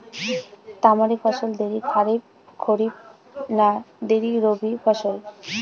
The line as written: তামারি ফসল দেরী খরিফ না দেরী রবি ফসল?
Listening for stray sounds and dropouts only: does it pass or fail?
pass